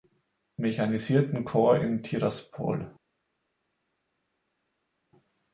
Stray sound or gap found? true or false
false